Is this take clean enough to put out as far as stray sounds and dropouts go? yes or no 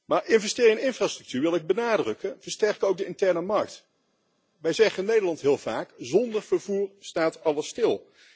yes